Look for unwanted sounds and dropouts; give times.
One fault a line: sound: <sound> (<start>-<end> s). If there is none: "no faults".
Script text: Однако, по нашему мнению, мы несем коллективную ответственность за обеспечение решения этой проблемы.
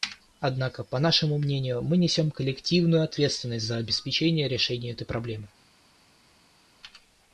no faults